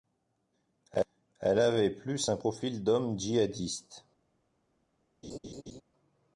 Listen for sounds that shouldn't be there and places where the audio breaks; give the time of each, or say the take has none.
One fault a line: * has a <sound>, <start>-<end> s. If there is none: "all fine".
* has a laugh, 5.2-5.8 s